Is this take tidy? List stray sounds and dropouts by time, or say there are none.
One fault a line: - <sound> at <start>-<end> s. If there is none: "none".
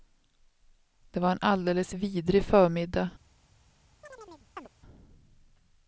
- chirp at 4.0-4.7 s